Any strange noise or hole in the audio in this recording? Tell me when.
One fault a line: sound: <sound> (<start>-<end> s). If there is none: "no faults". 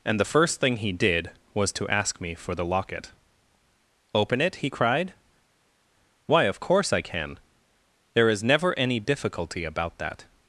no faults